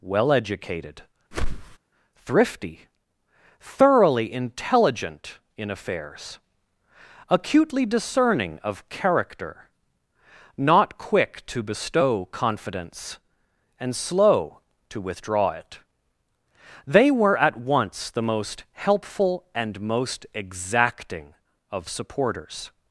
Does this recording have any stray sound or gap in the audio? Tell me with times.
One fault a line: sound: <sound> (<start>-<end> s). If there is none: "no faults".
sound: whoosh (1.3-1.8 s)